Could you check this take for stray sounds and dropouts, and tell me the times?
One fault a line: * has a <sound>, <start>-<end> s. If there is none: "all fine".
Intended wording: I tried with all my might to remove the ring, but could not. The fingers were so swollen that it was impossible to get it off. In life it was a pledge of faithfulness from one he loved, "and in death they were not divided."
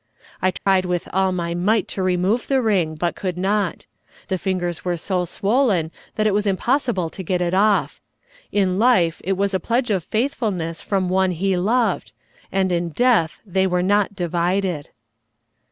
* has a dropout, 0.6-0.7 s